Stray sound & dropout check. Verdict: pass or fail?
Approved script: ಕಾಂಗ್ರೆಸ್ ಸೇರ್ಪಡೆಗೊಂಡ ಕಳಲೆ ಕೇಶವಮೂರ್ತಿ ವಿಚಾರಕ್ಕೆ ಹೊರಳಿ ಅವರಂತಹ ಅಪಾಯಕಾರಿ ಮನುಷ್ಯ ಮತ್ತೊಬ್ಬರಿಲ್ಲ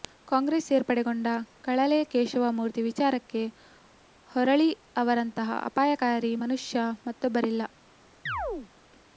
fail